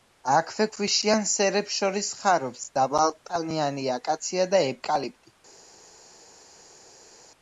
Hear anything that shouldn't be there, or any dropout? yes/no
no